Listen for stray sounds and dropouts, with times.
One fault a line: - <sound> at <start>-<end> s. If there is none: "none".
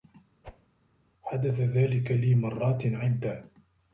- whoosh at 0.4-0.7 s